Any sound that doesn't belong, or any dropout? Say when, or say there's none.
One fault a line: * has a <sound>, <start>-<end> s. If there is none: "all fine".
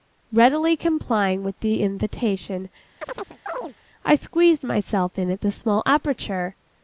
* has a chirp, 3.0-3.7 s